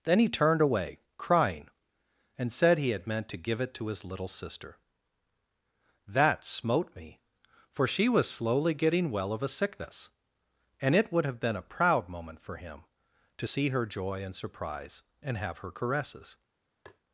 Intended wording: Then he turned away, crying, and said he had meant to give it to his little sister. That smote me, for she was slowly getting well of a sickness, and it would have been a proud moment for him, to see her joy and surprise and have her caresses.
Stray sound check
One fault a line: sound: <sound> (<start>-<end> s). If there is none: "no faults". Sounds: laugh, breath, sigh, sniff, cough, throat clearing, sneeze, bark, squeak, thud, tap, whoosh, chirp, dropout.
sound: tap (16.9-17.0 s)